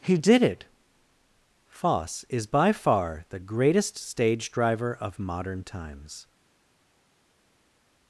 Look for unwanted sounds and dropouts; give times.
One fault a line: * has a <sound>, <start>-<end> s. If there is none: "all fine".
all fine